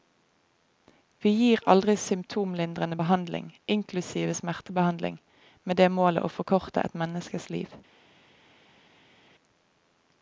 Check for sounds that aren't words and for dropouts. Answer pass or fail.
pass